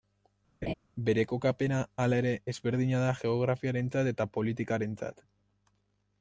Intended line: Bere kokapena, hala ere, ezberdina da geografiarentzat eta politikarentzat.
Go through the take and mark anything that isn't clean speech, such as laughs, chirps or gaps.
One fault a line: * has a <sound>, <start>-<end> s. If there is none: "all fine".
* has a laugh, 0.6-0.7 s